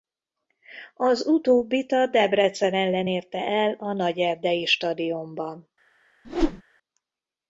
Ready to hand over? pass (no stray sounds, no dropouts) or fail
fail